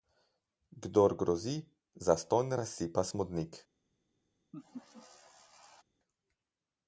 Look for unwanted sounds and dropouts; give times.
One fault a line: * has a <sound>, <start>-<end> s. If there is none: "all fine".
* has a laugh, 4.5-5.8 s